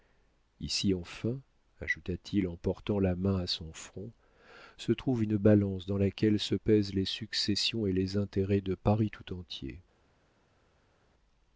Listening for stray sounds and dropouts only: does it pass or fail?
pass